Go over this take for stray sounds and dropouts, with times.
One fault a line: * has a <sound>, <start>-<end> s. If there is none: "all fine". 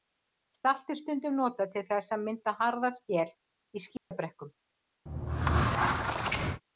* has a dropout, 4.0-4.1 s
* has a squeak, 5.1-6.6 s